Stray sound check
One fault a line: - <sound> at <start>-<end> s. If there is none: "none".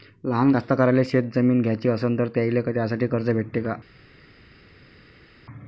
none